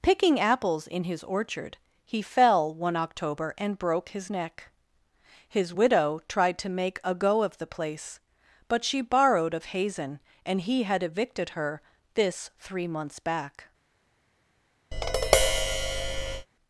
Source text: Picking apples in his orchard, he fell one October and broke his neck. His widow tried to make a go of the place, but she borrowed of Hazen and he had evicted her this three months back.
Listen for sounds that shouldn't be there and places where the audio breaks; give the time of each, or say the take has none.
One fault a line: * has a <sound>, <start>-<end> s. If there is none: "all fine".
* has a tap, 14.9-16.5 s